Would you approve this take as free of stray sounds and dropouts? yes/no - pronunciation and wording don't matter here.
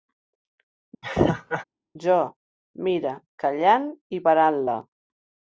no